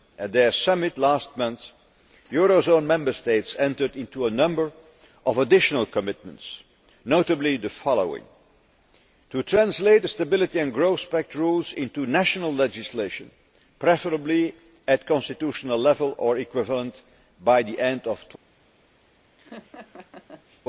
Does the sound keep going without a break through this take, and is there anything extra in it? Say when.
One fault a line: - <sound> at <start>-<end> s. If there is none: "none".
- laugh at 19.4-20.6 s